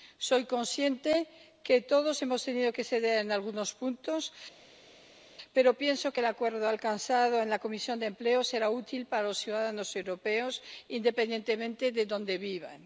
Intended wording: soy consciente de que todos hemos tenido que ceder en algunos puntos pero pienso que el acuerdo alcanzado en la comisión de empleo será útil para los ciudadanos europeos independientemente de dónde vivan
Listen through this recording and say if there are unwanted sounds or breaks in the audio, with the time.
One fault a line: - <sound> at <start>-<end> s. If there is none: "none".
none